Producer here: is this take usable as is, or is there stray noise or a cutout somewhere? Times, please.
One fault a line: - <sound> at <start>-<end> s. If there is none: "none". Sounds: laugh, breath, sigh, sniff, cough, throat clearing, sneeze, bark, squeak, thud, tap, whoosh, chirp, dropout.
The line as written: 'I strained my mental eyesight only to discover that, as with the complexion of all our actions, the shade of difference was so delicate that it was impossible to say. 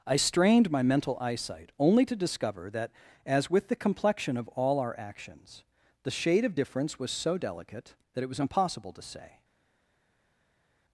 none